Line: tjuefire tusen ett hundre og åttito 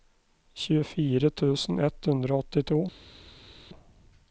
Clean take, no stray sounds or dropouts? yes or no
yes